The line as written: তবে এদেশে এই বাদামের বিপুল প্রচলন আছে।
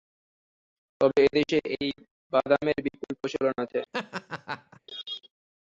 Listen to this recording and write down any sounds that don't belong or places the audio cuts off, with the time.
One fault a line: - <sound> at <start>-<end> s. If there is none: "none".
- laugh at 3.9-4.8 s